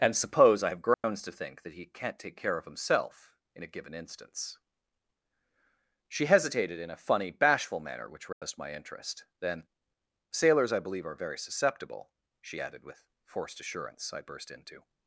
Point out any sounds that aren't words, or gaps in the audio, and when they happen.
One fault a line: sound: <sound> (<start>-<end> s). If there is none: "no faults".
sound: dropout (0.9-1.0 s)
sound: dropout (8.3-8.4 s)